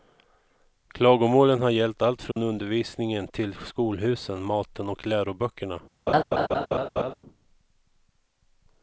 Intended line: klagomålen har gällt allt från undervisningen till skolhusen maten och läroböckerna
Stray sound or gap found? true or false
true